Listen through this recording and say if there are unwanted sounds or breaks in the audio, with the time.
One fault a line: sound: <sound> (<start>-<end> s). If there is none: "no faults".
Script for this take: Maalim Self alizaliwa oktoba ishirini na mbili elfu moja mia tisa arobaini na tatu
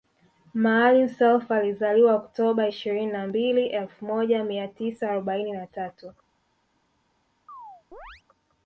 sound: chirp (7.5-8.2 s)